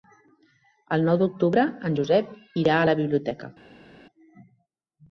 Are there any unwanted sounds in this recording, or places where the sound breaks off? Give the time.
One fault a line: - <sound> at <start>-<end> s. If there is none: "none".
none